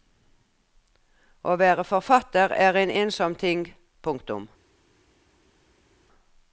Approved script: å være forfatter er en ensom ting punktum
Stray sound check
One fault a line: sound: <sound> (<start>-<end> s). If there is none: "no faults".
no faults